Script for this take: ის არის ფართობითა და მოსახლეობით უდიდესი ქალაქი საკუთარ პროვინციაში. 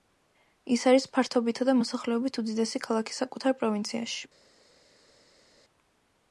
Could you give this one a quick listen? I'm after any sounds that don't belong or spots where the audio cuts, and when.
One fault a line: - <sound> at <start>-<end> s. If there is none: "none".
none